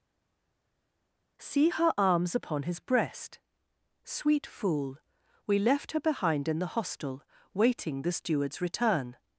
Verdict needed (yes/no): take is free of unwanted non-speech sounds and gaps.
yes